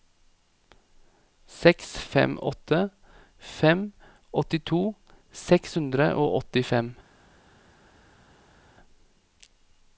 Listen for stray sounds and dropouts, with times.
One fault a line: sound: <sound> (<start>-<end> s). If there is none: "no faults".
no faults